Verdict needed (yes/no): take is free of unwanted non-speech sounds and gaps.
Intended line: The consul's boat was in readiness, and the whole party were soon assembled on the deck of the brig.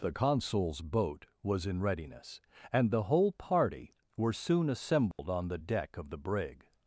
no